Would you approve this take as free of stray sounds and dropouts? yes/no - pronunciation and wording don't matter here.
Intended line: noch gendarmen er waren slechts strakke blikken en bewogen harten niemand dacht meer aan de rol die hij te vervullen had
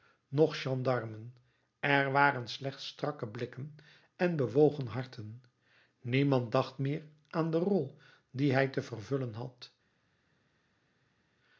yes